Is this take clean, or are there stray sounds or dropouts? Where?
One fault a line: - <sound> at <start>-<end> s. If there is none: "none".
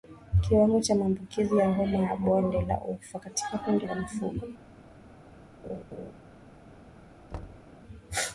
- laugh at 5.6-6.1 s
- thud at 7.3-7.7 s